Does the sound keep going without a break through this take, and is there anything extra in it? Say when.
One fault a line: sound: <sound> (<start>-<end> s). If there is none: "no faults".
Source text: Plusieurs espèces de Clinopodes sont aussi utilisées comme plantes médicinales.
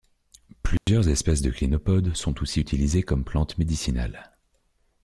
sound: dropout (0.8-0.9 s)